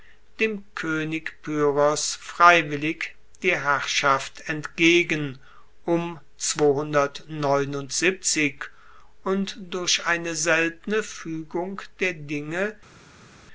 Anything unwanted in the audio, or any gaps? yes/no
no